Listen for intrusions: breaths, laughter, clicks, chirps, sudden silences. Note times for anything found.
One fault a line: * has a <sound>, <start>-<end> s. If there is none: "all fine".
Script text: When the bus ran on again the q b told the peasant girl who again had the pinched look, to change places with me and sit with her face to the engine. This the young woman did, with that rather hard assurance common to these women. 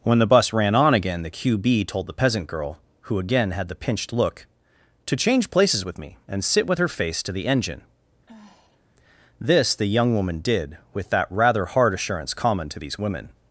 * has a sigh, 8.3-8.8 s